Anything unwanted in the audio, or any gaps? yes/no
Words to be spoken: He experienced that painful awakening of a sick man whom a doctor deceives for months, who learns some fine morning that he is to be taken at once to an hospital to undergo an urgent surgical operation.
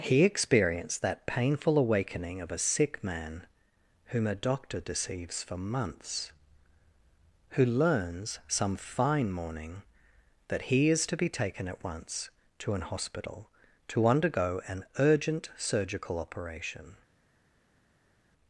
no